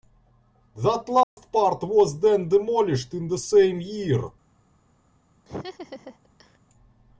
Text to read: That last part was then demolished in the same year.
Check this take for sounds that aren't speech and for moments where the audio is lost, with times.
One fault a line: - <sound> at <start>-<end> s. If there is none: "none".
- dropout at 1.2-1.4 s
- laugh at 5.5-6.6 s